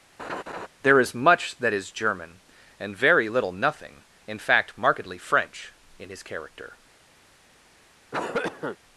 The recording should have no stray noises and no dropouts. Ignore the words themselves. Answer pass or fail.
fail